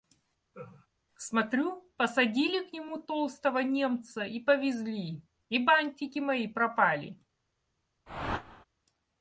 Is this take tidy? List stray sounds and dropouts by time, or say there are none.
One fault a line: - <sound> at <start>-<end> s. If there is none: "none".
- laugh at 0.5-0.9 s
- whoosh at 8.1-8.6 s